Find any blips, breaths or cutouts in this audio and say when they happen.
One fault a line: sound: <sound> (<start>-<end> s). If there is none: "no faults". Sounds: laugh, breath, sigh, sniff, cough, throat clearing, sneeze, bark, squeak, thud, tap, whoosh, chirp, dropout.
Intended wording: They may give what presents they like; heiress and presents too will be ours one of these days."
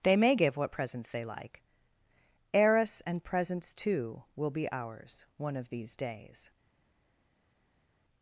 no faults